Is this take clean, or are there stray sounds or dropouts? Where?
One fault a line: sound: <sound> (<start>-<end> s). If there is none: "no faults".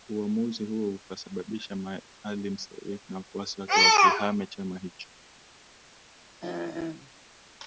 sound: throat clearing (6.4-7.1 s)